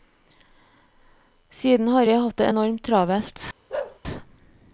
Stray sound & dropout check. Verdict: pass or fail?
fail